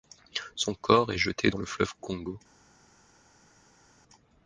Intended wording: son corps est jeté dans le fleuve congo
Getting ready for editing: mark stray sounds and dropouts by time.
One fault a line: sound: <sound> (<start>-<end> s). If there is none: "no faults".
no faults